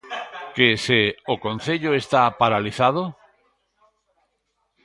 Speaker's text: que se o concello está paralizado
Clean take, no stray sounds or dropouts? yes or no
yes